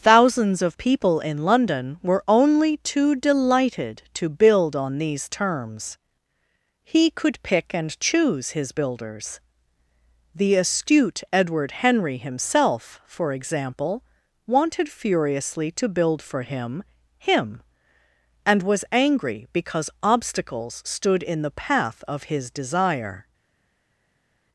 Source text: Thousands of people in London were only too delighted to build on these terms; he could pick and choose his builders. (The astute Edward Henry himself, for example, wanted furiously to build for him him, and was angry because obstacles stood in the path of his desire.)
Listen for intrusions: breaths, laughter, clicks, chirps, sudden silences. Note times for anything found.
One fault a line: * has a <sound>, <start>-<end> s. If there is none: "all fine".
all fine